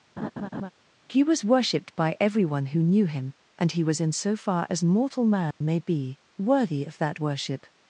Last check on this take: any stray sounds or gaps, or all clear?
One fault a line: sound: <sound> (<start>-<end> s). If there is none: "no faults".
sound: laugh (0.2-0.7 s)
sound: dropout (5.5-5.6 s)